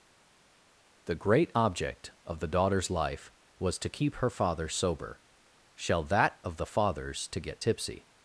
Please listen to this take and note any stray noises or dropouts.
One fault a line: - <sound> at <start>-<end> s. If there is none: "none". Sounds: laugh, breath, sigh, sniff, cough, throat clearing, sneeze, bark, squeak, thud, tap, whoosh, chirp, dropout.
none